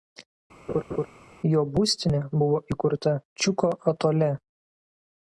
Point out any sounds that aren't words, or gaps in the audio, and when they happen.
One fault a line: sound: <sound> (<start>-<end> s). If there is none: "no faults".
sound: laugh (0.7-1.1 s)